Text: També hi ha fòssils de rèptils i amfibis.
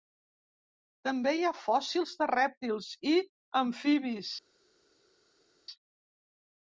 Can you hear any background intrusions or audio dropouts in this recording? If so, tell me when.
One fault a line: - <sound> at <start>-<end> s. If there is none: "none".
none